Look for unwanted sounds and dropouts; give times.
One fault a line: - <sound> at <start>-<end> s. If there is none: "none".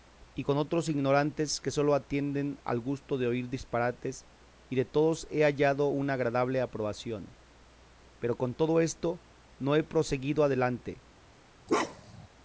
- bark at 11.7-12.3 s